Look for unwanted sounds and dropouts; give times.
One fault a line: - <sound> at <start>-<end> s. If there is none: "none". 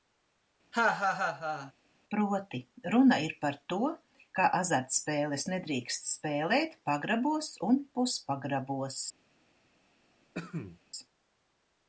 - laugh at 0.7-1.7 s
- cough at 10.3-10.8 s